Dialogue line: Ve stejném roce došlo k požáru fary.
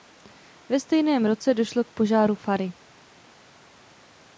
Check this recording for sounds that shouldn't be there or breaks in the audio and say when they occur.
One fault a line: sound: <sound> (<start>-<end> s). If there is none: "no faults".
no faults